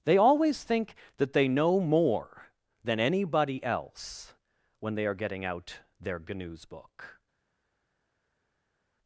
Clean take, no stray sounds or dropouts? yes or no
yes